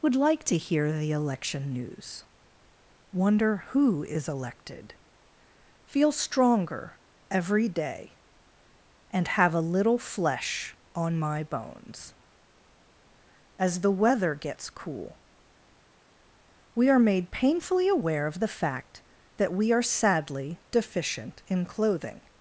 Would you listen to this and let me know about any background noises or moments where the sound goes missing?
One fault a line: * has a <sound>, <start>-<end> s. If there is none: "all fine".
all fine